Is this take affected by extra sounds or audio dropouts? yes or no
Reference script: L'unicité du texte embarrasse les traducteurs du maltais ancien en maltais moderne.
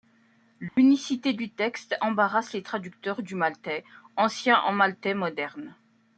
yes